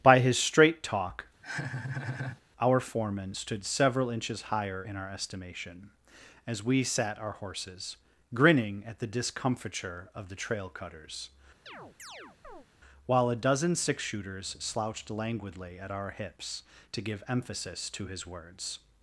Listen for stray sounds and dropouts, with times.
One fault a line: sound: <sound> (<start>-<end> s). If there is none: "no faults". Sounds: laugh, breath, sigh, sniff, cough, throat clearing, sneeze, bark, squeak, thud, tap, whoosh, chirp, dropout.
sound: laugh (1.4-2.4 s)
sound: chirp (11.7-12.7 s)